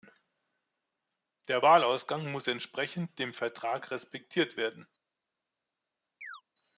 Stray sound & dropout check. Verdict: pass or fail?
fail